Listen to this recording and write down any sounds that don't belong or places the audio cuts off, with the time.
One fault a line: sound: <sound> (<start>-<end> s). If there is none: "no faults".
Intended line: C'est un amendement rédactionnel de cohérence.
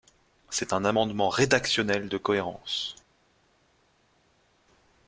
no faults